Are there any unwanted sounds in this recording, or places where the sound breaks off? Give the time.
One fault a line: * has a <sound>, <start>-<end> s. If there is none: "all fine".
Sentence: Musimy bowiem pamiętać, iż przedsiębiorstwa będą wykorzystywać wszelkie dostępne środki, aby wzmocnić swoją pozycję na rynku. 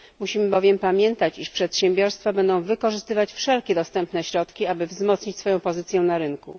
all fine